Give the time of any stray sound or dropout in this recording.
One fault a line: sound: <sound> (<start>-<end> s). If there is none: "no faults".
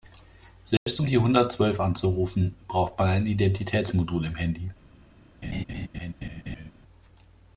sound: dropout (0.8-0.9 s)
sound: laugh (5.4-6.7 s)